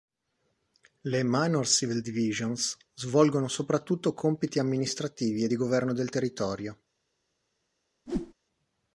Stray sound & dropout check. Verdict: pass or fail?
fail